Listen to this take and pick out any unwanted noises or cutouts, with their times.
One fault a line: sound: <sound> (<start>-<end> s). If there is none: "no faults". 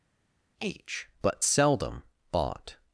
no faults